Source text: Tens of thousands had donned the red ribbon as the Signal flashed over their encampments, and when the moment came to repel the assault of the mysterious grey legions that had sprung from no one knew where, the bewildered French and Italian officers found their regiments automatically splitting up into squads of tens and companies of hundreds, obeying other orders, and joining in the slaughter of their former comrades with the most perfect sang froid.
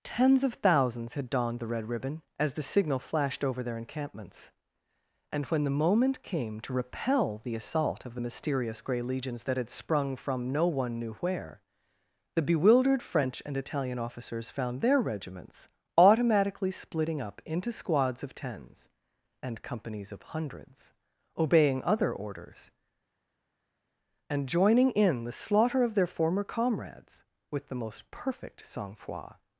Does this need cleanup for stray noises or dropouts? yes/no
no